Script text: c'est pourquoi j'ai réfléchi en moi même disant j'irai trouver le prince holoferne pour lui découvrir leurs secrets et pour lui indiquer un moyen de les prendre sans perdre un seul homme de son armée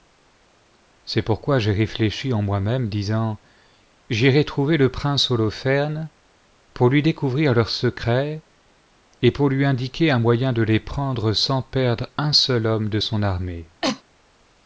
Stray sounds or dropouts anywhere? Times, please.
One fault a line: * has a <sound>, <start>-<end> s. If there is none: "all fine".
* has a cough, 13.8-14.0 s